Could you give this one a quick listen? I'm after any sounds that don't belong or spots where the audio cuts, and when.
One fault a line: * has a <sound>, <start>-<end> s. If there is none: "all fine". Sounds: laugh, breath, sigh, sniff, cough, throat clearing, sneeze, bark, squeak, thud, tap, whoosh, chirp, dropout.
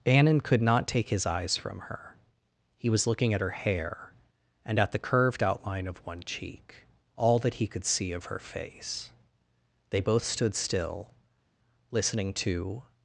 all fine